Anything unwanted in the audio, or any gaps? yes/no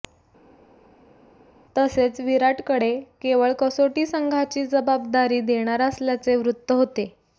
no